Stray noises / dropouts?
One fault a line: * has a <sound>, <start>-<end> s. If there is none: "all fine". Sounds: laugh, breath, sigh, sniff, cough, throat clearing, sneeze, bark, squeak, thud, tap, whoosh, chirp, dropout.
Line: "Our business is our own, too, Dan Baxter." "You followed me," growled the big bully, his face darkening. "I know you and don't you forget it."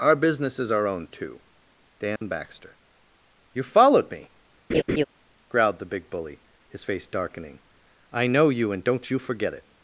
* has a dropout, 2.2-2.2 s
* has a laugh, 4.7-5.1 s